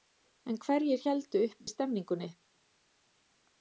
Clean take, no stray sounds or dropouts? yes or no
no